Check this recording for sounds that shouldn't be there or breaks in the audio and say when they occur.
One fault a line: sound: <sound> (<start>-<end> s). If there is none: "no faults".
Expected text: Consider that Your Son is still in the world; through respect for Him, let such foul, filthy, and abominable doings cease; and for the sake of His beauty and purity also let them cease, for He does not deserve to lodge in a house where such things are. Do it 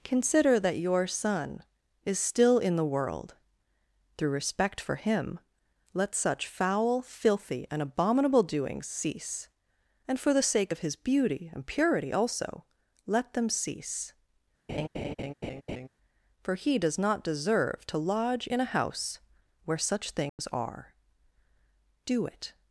sound: laugh (14.7-15.9 s)
sound: dropout (20.3-20.4 s)